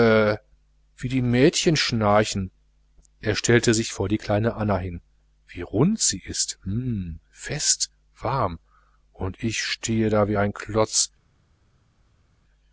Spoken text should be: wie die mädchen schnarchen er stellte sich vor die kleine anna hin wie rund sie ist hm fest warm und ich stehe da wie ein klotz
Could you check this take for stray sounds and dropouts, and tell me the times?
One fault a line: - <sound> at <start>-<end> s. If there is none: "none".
none